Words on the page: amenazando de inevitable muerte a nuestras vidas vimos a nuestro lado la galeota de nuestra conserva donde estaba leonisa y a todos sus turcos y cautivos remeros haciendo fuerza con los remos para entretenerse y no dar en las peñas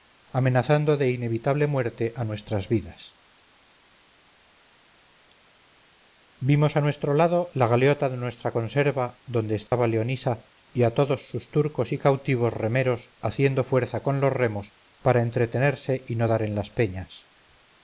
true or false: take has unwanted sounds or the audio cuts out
true